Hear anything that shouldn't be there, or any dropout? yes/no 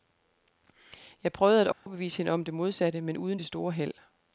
yes